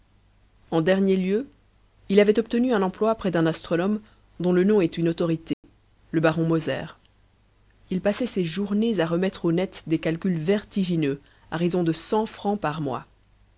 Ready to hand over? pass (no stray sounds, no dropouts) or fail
fail